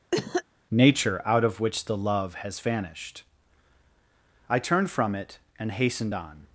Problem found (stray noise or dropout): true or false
true